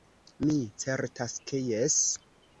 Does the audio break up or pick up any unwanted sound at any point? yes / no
no